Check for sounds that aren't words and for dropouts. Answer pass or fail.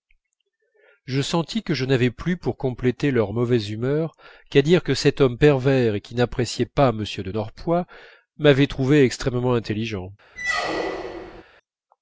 fail